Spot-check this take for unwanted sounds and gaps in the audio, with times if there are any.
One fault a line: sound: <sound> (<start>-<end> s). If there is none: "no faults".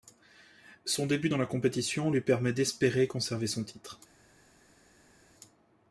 no faults